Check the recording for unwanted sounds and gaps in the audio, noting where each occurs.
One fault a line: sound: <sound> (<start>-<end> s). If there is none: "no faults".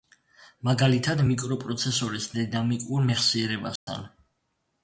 sound: dropout (3.8-3.9 s)